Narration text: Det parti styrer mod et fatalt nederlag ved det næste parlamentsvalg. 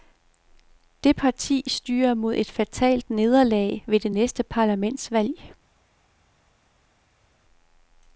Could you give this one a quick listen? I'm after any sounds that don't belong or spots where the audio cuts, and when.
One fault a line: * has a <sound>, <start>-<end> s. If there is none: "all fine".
all fine